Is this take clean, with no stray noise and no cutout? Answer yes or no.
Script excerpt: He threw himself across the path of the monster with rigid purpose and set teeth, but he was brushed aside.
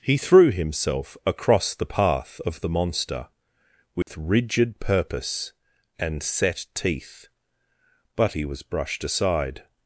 no